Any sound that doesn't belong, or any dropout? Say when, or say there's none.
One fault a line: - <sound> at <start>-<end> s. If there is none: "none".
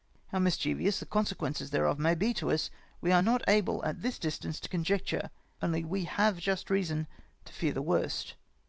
none